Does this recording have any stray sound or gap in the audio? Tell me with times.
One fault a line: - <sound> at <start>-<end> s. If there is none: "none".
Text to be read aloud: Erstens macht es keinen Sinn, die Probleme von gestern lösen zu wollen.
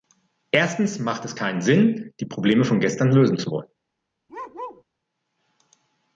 - bark at 4.3-4.8 s